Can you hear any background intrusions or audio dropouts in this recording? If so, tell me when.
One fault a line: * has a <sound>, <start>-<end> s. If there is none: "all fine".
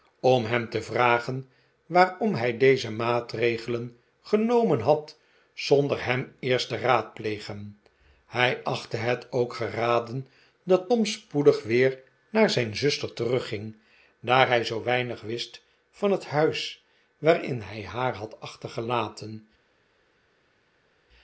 all fine